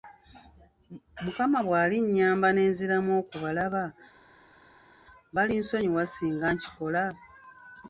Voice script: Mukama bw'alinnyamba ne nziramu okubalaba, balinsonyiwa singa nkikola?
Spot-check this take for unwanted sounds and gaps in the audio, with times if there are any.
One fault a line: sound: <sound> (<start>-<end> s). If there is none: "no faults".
no faults